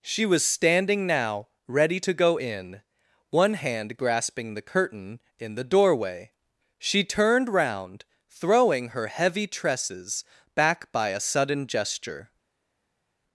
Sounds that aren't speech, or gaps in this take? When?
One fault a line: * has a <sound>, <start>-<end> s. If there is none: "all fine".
all fine